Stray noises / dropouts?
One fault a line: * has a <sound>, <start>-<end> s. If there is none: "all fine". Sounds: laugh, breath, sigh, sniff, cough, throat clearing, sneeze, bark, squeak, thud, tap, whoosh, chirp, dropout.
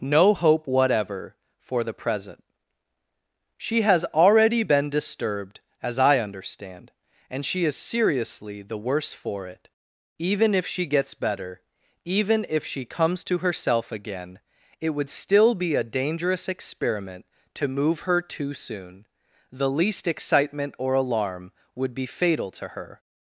all fine